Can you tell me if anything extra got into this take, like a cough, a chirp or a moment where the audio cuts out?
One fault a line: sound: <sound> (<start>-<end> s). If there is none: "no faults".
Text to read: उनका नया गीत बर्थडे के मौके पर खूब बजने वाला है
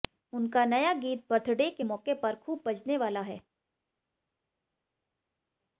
no faults